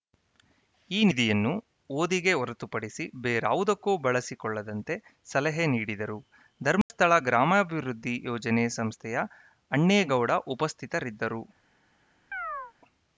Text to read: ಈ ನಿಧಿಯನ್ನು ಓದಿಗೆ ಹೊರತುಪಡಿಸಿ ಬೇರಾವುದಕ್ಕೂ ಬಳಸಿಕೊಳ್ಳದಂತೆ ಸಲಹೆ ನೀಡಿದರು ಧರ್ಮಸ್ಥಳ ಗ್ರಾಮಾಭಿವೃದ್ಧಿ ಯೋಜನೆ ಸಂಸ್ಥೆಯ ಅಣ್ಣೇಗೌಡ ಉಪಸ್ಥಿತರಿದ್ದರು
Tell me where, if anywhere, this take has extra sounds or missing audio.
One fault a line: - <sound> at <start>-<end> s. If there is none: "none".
- dropout at 6.8-6.9 s
- chirp at 12.3-12.7 s